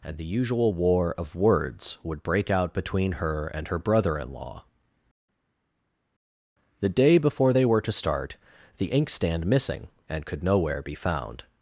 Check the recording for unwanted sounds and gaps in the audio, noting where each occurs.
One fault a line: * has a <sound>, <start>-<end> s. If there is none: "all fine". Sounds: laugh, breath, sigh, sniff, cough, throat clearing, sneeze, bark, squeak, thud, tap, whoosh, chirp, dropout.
all fine